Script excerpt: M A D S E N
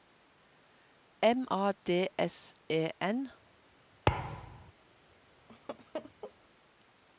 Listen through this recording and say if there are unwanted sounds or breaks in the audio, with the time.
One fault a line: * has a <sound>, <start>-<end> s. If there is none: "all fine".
* has a thud, 4.1-4.7 s
* has a laugh, 5.5-6.3 s